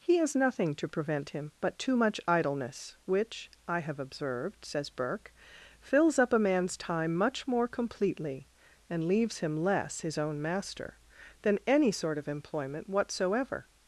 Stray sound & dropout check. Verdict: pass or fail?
pass